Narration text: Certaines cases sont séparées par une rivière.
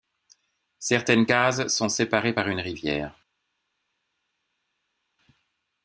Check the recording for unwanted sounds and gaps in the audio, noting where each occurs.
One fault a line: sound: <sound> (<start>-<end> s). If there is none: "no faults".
no faults